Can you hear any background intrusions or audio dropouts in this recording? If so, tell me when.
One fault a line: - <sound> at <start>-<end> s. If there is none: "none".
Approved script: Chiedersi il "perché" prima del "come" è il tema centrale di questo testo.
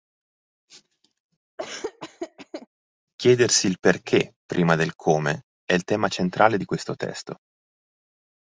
- laugh at 1.6-2.7 s